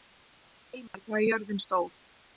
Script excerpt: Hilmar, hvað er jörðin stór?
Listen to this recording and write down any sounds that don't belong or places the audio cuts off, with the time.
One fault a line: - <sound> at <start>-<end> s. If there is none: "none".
- dropout at 0.9-0.9 s